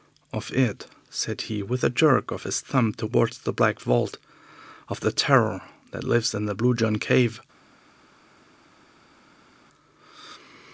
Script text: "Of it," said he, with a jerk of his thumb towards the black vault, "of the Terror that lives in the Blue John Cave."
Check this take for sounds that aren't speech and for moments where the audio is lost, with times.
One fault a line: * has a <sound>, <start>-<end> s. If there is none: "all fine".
all fine